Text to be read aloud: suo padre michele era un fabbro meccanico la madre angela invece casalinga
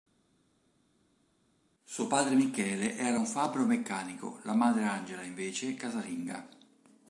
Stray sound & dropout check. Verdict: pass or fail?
pass